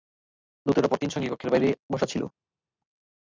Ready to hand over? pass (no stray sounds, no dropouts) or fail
pass